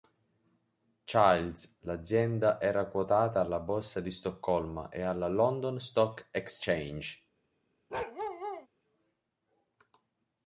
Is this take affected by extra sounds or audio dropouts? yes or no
yes